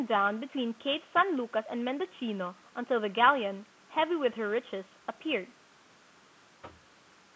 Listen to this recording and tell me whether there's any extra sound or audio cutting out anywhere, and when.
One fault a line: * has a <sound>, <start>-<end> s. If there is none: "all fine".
* has a thud, 6.6-7.0 s